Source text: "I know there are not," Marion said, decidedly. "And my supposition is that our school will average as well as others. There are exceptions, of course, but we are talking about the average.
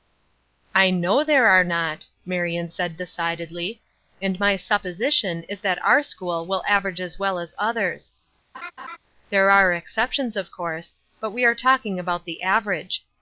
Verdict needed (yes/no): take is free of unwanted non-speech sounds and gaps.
no